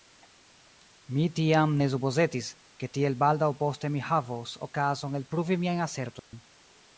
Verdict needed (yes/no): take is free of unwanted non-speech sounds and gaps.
no